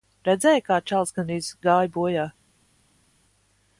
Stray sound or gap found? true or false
false